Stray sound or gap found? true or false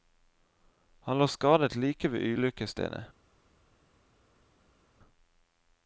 false